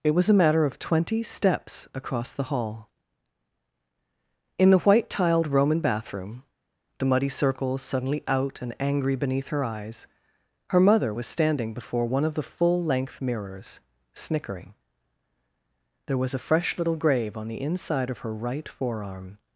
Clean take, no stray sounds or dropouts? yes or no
yes